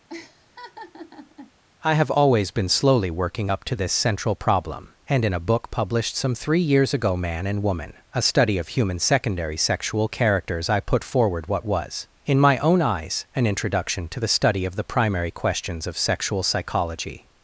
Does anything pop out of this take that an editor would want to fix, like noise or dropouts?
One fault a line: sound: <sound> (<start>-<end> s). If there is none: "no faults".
sound: laugh (0.1-1.5 s)